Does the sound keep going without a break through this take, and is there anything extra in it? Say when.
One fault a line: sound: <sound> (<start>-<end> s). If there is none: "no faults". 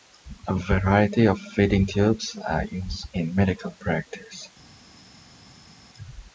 no faults